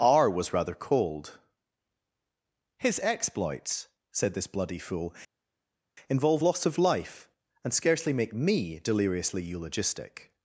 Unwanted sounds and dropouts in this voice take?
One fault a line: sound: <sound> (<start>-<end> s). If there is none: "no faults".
no faults